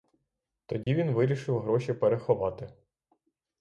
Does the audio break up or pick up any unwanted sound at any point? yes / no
yes